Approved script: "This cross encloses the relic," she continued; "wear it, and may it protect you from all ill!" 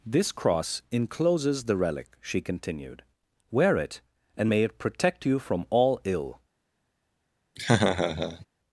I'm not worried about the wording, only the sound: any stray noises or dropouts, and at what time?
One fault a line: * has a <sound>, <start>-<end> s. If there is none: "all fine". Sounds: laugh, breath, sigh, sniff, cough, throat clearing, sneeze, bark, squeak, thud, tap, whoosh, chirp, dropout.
* has a laugh, 7.6-8.5 s